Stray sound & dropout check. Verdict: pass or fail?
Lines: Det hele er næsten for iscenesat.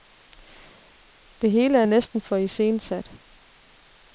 pass